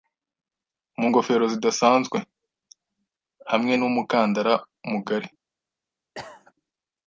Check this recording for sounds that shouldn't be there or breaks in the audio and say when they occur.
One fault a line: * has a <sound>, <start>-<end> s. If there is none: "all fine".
* has a cough, 6.1-6.5 s